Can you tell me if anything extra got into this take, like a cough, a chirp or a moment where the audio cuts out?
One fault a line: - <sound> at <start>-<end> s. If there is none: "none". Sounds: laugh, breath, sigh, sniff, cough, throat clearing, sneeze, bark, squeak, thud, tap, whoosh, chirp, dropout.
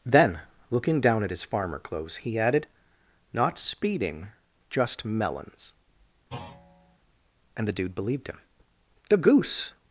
- thud at 6.3-7.0 s